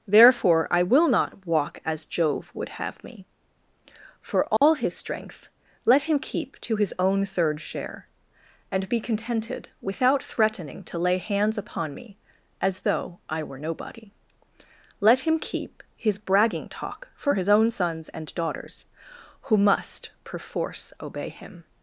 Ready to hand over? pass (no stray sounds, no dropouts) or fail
fail